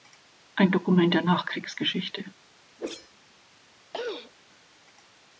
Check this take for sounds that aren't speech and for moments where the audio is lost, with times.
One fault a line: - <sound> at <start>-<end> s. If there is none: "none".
- whoosh at 2.8-3.1 s
- throat clearing at 3.9-4.3 s